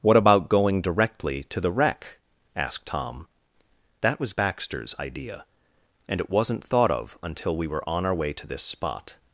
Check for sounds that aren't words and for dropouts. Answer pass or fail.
pass